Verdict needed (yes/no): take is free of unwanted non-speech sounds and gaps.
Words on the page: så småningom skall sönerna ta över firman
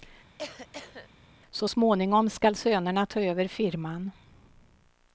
no